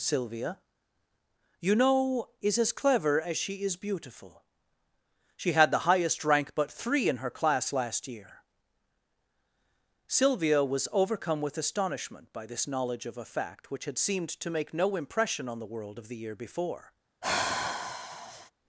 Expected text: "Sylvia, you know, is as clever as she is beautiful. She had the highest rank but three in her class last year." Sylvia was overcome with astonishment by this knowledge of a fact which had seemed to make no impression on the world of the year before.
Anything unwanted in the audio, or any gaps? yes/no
yes